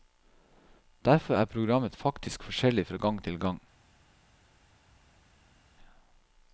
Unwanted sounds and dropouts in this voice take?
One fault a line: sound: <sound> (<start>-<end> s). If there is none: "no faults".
no faults